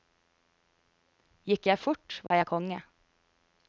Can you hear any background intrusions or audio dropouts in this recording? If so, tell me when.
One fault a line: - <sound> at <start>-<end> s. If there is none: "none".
- dropout at 2.3-2.3 s